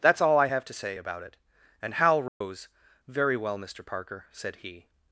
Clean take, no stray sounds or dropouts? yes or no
no